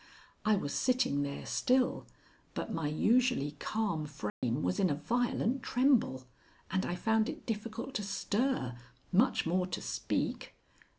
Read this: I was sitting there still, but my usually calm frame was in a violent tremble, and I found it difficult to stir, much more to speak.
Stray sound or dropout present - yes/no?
yes